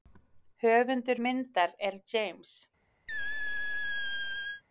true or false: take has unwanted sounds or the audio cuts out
true